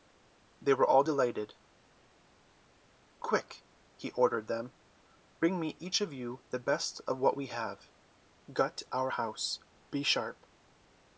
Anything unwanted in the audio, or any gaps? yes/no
no